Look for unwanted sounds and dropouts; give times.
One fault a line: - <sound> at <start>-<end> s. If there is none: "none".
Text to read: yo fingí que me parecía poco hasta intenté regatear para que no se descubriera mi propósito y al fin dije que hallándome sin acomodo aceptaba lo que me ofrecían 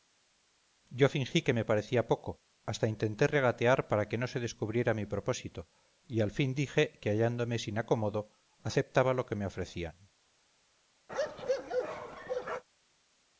- bark at 11.1-12.6 s